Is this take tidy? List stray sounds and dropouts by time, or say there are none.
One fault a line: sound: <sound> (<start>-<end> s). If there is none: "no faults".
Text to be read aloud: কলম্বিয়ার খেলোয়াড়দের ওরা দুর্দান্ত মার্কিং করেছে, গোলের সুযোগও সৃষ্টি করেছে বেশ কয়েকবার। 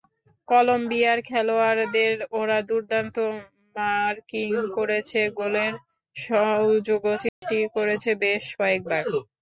sound: dropout (7.3-7.4 s)